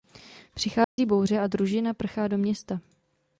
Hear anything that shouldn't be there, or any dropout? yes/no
yes